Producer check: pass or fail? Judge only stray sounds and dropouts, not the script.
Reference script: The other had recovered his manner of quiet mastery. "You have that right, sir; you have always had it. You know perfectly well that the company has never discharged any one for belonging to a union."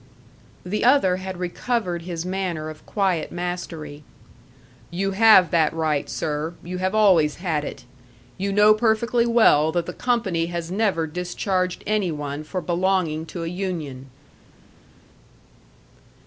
pass